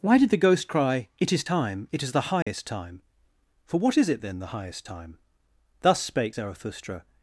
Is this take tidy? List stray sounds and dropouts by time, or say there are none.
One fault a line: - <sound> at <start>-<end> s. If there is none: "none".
- dropout at 2.4-2.5 s